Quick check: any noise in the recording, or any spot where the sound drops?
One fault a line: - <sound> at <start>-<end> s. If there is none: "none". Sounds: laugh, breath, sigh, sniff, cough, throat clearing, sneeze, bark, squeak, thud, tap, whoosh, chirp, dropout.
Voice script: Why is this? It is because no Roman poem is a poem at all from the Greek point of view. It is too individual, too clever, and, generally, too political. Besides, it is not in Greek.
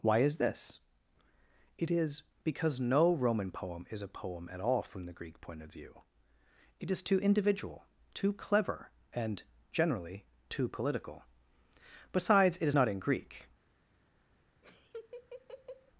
- laugh at 14.6-15.9 s